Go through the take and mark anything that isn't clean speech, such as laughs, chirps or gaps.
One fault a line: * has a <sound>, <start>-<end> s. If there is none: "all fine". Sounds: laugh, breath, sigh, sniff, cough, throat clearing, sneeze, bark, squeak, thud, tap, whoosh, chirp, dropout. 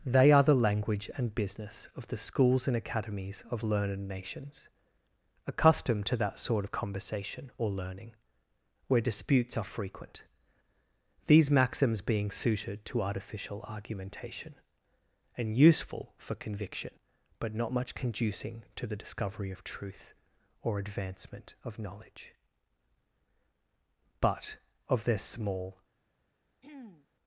* has a throat clearing, 26.6-27.1 s